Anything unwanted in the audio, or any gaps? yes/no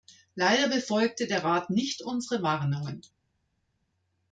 no